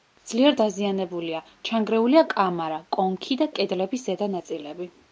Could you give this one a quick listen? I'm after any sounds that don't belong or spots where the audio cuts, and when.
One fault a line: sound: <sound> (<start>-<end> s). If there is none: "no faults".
no faults